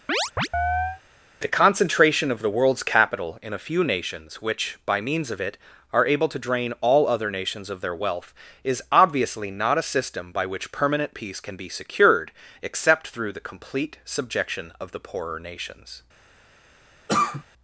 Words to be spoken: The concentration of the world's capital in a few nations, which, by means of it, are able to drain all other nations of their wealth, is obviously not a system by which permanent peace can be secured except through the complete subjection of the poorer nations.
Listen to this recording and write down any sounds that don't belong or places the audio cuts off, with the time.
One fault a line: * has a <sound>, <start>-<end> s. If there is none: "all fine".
* has a chirp, 0.1-1.0 s
* has a cough, 17.1-17.4 s